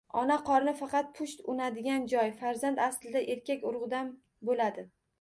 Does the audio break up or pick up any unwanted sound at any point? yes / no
no